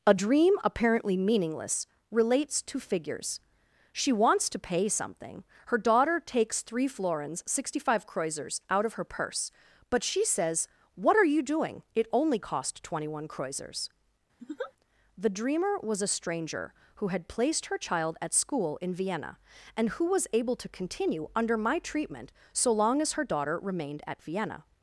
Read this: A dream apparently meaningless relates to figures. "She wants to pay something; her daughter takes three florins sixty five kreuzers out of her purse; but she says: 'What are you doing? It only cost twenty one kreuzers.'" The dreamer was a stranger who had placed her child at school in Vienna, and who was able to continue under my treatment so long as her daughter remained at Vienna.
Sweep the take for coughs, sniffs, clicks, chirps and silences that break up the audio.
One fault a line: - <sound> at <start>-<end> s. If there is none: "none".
- laugh at 14.4-14.7 s